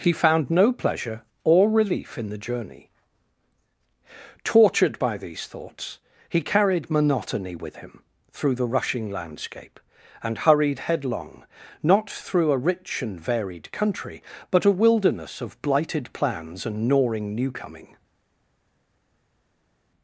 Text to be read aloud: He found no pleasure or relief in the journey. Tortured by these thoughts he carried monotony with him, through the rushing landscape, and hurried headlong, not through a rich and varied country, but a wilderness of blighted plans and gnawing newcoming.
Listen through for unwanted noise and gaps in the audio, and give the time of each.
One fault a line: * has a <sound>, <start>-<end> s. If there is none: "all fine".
all fine